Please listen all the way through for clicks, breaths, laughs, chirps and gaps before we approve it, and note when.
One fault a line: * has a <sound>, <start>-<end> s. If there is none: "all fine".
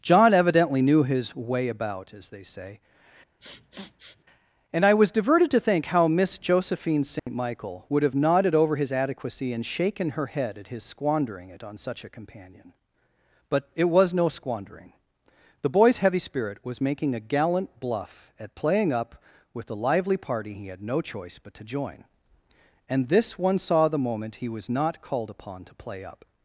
* has a sniff, 3.4-4.2 s
* has a dropout, 7.2-7.3 s